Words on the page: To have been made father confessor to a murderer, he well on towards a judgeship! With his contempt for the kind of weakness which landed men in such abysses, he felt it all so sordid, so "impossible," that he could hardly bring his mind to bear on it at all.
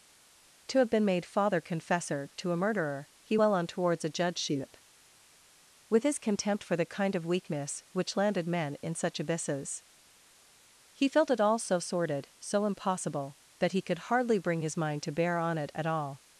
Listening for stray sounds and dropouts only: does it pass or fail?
pass